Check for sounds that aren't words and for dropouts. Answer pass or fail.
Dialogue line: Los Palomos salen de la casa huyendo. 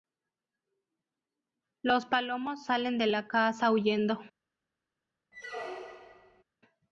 fail